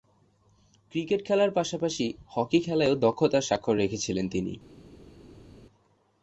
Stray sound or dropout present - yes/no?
no